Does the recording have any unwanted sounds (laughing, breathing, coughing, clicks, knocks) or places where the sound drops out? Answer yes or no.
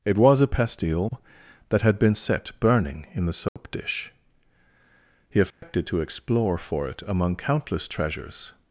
yes